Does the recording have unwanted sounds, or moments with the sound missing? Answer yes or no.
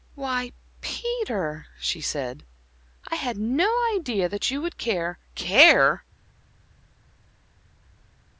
no